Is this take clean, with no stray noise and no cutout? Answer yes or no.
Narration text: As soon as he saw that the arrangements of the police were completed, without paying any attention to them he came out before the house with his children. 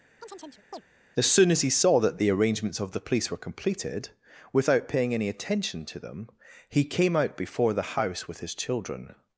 no